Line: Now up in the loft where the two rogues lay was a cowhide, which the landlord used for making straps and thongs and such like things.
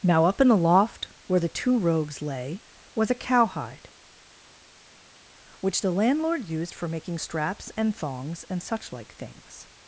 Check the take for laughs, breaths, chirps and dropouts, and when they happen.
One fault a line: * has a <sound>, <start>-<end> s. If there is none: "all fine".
all fine